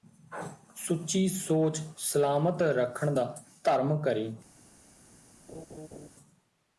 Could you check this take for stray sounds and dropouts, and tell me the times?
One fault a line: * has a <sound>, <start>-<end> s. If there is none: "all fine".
* has a laugh, 5.5-6.1 s